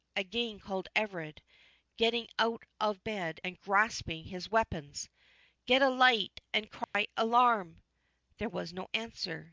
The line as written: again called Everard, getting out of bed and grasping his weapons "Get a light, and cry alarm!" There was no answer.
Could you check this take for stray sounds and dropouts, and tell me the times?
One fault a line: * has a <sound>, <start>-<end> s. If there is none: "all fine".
* has a dropout, 6.8-6.9 s